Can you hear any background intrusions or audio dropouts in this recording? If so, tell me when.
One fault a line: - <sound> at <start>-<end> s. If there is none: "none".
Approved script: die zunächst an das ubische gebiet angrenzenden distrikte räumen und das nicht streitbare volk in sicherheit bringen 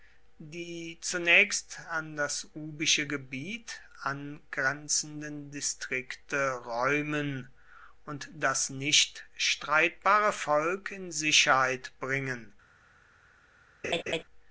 - laugh at 13.8-14.2 s